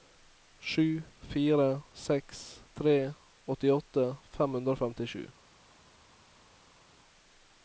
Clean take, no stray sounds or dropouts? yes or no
yes